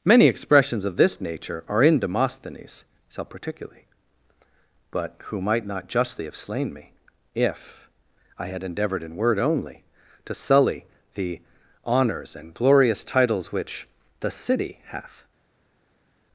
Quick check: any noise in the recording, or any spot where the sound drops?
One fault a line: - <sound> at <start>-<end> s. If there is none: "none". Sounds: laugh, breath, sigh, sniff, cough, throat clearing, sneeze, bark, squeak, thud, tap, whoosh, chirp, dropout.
none